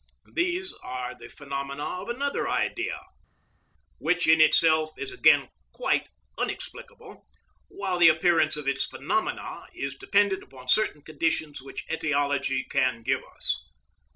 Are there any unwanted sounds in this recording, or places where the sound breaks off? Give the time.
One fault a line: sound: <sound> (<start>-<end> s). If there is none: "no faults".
no faults